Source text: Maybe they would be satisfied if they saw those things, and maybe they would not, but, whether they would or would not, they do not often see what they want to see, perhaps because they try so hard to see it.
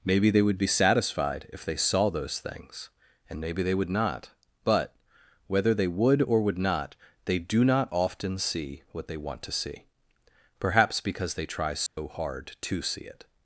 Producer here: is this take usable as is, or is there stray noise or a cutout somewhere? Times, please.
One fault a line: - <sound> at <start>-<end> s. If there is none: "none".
- dropout at 11.9-12.0 s